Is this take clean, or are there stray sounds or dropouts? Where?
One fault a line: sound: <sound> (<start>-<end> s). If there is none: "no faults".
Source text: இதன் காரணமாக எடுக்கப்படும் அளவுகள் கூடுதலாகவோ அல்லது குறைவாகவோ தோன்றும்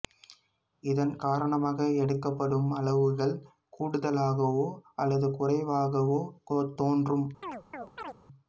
sound: chirp (7.4-8.2 s)